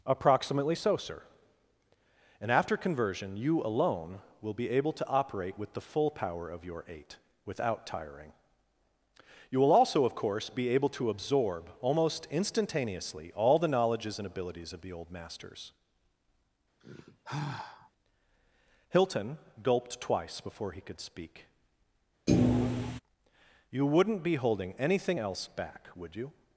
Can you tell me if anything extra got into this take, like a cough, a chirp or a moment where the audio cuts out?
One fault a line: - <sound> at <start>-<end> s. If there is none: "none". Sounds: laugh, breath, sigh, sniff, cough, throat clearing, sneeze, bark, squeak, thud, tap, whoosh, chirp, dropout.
- sigh at 16.8-17.9 s
- thud at 22.3-23.0 s